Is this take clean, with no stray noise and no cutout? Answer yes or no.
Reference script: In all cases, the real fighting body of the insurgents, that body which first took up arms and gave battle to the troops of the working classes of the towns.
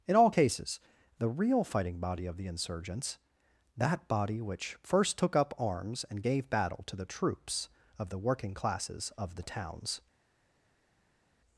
yes